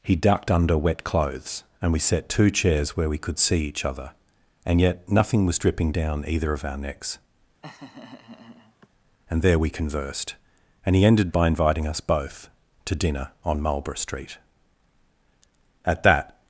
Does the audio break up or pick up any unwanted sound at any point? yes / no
yes